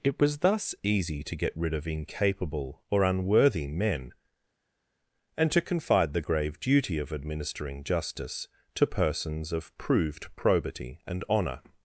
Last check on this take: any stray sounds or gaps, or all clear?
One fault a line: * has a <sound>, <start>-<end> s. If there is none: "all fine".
all fine